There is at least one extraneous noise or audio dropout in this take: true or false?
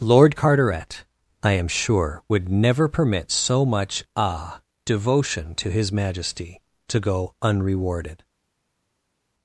false